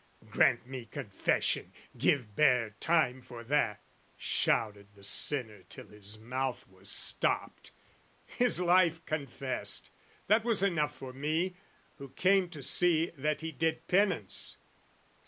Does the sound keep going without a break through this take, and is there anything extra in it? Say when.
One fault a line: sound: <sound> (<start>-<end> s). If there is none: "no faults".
no faults